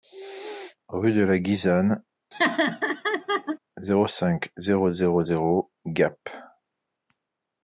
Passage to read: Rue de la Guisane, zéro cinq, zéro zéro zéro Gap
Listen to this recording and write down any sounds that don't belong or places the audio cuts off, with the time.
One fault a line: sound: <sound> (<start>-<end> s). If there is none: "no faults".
sound: laugh (2.3-3.6 s)